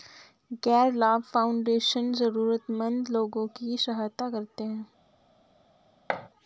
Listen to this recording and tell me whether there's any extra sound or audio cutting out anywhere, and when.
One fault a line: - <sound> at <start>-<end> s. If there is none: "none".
- thud at 6.1-6.3 s